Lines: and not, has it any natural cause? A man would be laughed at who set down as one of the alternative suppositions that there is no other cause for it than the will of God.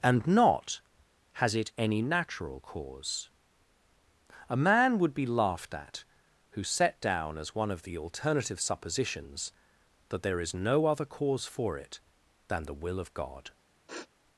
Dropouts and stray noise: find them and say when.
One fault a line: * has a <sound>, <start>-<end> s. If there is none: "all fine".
* has a sniff, 13.9-14.1 s